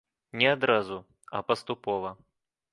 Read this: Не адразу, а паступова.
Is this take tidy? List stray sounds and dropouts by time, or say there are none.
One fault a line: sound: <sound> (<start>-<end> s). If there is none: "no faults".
no faults